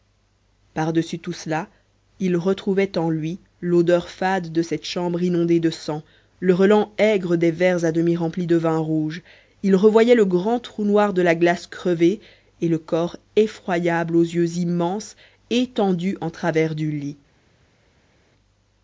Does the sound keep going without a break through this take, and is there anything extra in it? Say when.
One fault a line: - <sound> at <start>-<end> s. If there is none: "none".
none